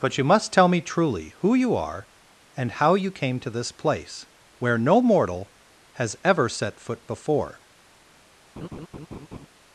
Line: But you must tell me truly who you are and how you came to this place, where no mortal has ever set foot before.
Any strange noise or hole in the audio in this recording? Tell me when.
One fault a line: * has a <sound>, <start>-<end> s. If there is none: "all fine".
* has a laugh, 8.6-9.5 s